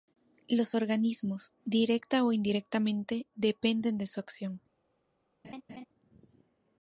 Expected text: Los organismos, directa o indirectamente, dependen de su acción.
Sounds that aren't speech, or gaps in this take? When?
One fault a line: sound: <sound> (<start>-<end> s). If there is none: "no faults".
sound: laugh (5.4-5.9 s)